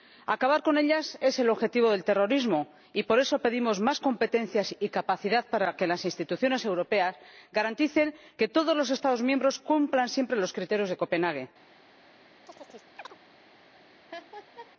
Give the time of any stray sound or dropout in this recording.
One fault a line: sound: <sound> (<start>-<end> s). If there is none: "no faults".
sound: chirp (12.5-13.2 s)
sound: laugh (14.1-14.7 s)